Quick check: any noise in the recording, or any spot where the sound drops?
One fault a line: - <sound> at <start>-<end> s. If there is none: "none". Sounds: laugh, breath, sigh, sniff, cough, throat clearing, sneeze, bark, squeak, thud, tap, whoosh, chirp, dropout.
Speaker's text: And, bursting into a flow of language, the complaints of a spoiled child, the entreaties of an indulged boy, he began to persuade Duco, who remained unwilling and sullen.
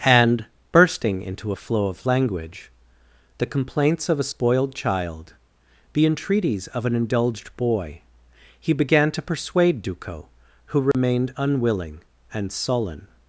- dropout at 10.9-10.9 s